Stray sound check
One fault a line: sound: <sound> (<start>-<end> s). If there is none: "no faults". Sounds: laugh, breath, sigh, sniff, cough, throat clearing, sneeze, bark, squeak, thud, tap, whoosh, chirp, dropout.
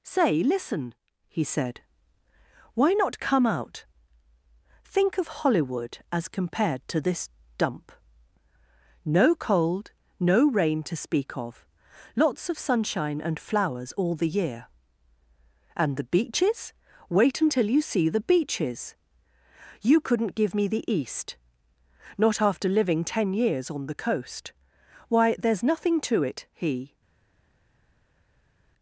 no faults